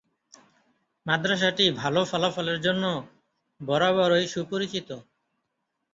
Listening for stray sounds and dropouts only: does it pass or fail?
pass